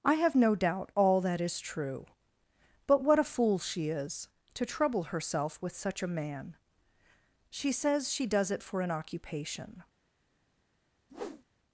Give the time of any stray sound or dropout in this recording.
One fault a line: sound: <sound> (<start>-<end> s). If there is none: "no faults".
sound: whoosh (11.1-11.4 s)